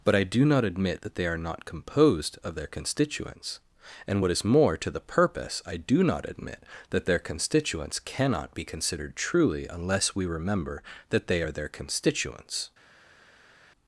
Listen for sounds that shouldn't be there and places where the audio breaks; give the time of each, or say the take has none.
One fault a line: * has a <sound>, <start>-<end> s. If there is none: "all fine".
all fine